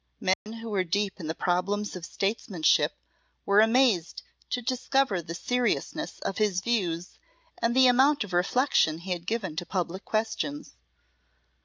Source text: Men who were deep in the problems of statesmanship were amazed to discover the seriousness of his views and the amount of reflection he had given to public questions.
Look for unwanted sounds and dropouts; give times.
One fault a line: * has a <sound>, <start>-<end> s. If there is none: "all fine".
* has a dropout, 0.3-0.5 s